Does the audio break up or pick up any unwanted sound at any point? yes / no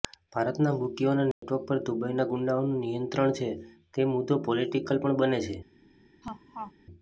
yes